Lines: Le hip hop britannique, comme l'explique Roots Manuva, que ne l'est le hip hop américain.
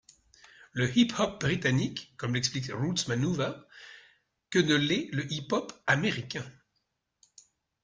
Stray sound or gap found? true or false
false